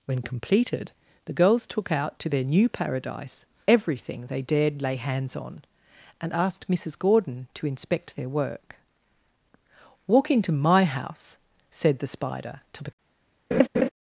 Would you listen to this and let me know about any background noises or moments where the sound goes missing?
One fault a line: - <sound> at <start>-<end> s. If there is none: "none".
- laugh at 13.5-13.9 s